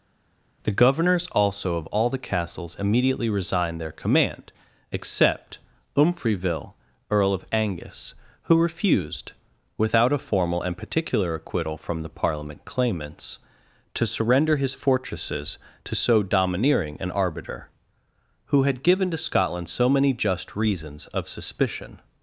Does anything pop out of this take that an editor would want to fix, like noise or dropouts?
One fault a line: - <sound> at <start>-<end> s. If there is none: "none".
none